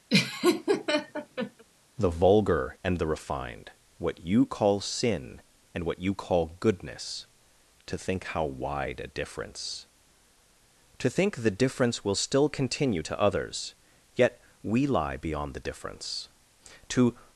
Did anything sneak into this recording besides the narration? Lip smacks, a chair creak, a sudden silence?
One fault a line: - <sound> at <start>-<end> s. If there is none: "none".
- laugh at 0.1-1.6 s